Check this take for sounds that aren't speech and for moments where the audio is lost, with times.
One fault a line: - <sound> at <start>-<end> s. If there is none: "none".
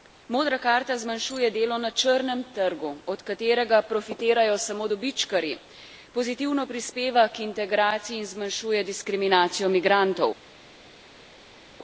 none